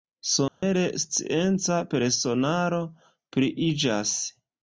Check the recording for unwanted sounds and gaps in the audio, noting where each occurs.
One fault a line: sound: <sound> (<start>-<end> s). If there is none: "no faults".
sound: dropout (0.5-0.6 s)